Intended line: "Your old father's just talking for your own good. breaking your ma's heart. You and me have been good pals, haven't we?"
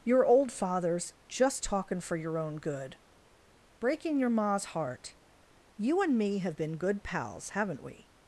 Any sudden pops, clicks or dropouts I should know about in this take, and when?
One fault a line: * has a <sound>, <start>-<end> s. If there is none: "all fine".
all fine